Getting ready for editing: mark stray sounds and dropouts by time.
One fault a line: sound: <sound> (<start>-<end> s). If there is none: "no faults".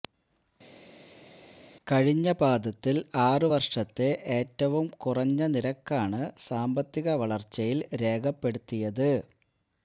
no faults